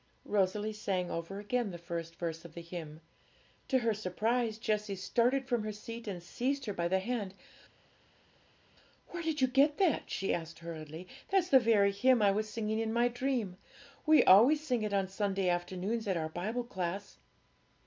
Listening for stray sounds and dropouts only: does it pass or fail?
pass